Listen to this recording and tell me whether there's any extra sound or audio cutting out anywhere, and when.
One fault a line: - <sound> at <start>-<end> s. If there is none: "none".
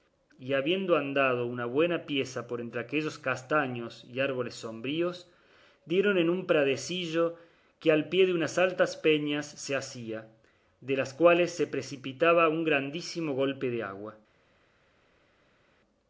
none